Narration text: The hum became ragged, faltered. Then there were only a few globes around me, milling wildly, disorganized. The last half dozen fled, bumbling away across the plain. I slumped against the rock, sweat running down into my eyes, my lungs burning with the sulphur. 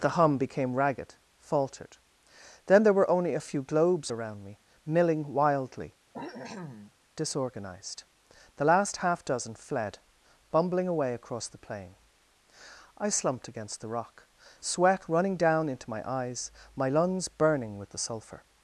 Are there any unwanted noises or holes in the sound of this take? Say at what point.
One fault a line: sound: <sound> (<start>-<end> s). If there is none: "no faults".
sound: cough (6.1-6.9 s)